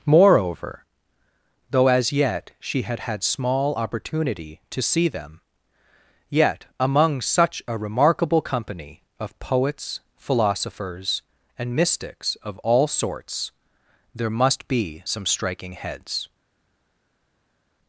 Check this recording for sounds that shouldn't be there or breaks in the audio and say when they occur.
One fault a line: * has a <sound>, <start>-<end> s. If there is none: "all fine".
all fine